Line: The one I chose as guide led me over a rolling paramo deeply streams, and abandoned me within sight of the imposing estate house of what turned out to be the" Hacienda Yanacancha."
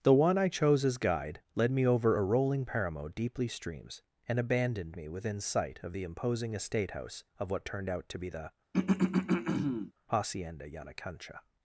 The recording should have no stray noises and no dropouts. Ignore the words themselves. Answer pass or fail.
fail